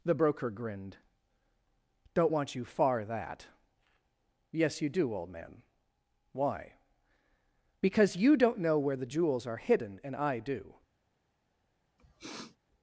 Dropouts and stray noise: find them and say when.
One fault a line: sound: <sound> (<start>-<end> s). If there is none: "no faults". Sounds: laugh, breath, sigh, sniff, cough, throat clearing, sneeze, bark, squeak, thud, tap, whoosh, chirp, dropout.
sound: sniff (12.0-12.6 s)